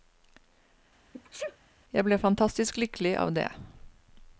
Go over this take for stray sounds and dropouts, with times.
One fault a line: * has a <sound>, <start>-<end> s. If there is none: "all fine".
* has a sneeze, 1.1-1.6 s